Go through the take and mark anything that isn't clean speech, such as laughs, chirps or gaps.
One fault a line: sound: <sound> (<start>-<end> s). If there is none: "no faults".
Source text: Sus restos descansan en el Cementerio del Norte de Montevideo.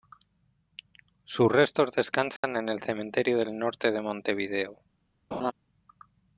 sound: dropout (2.4-2.4 s)
sound: laugh (5.3-5.5 s)